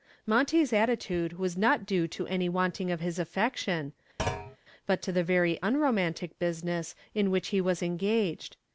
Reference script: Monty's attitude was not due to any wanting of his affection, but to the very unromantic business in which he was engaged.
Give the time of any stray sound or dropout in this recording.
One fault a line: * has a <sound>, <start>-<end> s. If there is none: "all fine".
* has a thud, 4.2-4.6 s